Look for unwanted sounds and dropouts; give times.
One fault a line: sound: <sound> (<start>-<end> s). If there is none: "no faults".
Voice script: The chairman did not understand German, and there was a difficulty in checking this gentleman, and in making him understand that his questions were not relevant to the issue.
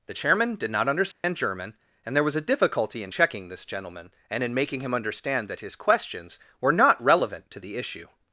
sound: dropout (1.1-1.2 s)